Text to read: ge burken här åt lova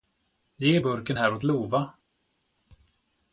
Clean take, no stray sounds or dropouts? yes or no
yes